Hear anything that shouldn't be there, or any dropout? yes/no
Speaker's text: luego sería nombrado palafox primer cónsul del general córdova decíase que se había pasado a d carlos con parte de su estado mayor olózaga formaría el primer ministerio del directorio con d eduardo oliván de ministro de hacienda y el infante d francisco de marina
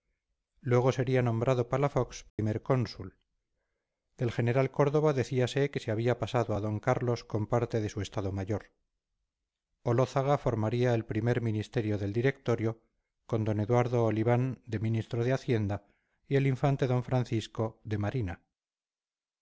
yes